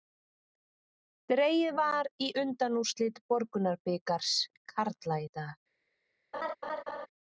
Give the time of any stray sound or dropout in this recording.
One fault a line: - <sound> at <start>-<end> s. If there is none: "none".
- laugh at 6.3-7.1 s